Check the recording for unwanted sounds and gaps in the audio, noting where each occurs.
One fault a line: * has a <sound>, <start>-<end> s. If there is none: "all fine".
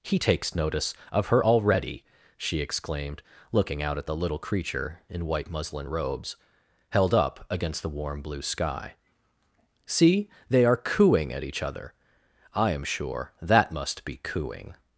all fine